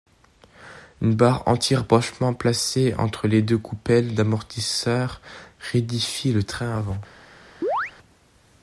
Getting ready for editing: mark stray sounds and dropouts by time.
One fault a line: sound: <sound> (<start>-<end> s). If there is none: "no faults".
sound: chirp (7.6-7.9 s)